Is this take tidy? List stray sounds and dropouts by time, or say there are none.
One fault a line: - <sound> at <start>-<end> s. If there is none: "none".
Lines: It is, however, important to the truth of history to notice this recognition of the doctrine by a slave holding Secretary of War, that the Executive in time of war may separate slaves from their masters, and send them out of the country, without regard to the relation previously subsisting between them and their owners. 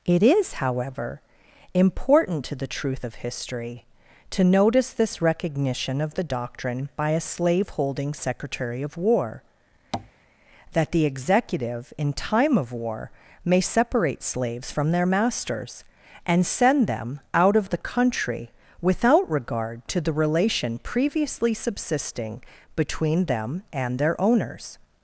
- tap at 9.9-10.1 s